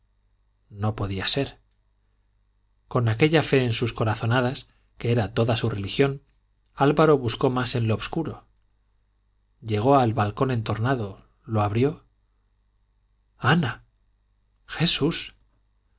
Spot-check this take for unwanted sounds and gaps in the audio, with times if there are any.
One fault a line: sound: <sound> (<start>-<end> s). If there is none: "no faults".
no faults